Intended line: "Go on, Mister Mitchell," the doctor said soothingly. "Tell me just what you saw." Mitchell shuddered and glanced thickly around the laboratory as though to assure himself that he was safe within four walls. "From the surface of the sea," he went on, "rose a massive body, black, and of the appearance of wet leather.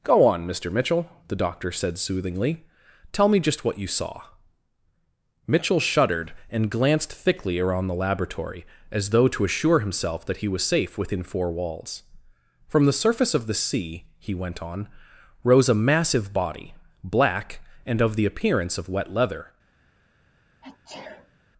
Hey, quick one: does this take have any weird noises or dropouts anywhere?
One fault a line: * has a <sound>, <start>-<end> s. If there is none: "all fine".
* has a sneeze, 20.6-21.4 s